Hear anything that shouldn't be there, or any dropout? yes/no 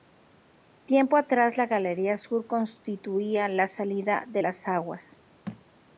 yes